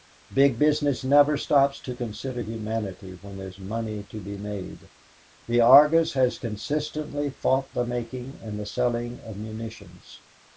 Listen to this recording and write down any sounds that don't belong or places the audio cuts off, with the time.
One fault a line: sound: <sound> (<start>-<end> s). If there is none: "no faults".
no faults